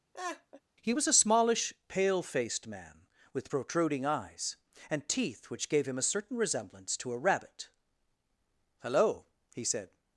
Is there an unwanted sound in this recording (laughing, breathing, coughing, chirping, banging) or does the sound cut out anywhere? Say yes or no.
yes